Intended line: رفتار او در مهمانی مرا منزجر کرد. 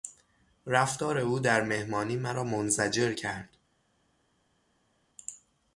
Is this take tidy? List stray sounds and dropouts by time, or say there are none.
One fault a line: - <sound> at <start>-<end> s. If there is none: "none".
none